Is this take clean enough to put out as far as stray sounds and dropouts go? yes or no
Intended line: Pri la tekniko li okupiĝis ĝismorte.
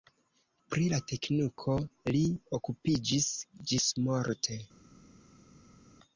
yes